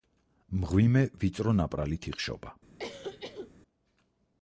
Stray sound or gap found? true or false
true